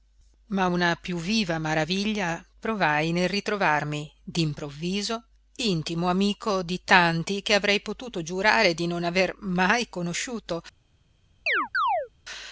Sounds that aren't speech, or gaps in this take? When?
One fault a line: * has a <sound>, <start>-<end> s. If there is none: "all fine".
* has a chirp, 11.5-12.1 s